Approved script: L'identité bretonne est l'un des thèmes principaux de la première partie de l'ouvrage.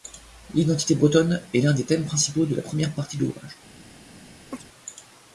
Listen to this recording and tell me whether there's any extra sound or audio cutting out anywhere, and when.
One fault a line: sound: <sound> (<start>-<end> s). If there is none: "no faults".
sound: chirp (4.5-4.7 s)